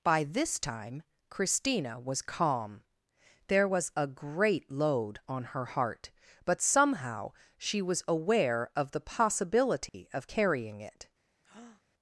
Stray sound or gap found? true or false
true